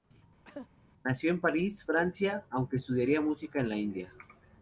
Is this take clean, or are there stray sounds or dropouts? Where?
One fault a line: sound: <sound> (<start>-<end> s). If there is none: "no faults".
sound: cough (0.4-0.7 s)